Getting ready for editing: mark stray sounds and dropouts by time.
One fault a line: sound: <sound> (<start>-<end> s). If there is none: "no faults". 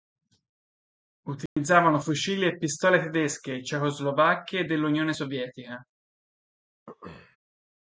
sound: dropout (1.5-1.6 s)
sound: throat clearing (6.9-7.4 s)